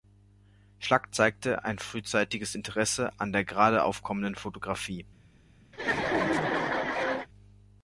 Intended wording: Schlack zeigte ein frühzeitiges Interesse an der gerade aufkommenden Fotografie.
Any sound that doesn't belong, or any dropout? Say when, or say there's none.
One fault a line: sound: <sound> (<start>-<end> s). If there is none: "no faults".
sound: laugh (5.7-7.3 s)